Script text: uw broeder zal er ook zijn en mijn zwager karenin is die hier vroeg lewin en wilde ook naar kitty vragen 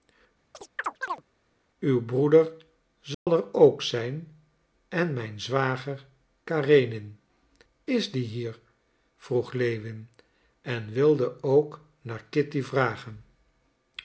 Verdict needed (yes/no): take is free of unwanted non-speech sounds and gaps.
no